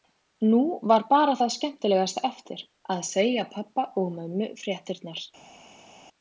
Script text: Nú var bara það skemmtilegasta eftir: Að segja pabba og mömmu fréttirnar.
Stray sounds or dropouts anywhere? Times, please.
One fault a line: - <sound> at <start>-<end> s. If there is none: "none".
none